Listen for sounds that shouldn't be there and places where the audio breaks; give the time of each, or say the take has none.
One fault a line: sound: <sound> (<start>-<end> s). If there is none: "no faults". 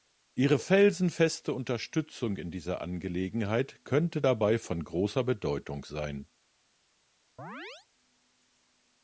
sound: chirp (7.4-7.9 s)